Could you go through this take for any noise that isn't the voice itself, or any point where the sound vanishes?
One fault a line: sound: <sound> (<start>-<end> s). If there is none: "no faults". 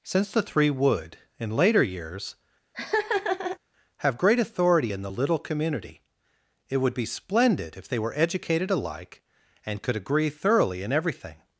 sound: laugh (2.7-3.6 s)